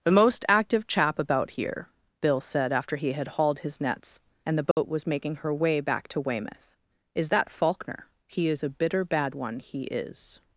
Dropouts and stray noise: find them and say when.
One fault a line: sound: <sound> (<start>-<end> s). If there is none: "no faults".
sound: dropout (4.7-4.8 s)